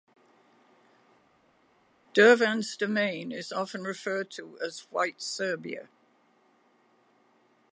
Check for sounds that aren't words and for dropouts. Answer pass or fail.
pass